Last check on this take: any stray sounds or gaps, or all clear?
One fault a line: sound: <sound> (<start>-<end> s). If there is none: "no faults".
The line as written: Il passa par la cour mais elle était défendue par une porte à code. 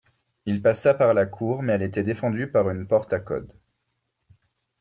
no faults